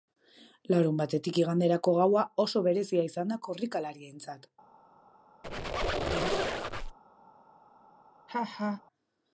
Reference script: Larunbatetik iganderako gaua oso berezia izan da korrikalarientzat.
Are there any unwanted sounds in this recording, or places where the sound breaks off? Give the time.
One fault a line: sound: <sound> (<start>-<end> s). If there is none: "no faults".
sound: squeak (5.4-7.0 s)
sound: laugh (8.3-8.8 s)